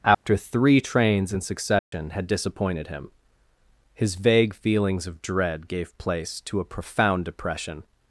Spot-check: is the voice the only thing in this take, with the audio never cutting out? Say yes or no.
no